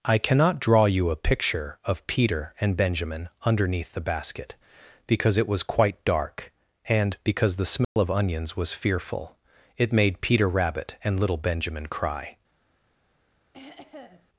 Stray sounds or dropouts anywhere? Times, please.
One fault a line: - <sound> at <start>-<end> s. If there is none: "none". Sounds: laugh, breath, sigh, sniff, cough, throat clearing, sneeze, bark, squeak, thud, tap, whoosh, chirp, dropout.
- dropout at 7.8-8.0 s
- throat clearing at 13.5-14.3 s